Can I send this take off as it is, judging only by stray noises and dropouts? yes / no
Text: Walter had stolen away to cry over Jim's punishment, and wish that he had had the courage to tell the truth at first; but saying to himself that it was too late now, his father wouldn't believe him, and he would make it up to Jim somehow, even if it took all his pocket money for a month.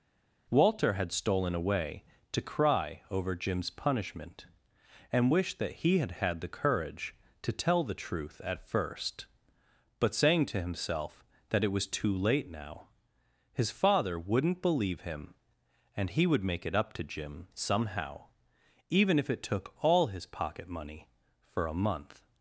yes